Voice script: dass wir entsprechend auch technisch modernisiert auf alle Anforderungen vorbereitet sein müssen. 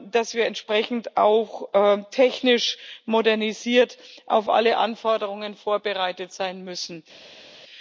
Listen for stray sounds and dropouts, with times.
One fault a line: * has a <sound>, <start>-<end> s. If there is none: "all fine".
all fine